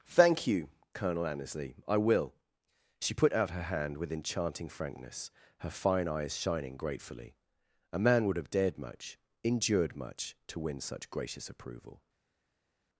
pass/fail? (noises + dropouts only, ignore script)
pass